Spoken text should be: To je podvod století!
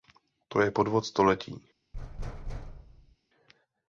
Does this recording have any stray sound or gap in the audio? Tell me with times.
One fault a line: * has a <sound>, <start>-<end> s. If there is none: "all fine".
* has a thud, 1.9-3.2 s